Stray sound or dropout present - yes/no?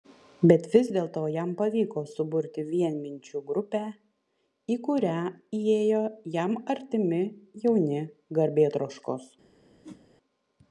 yes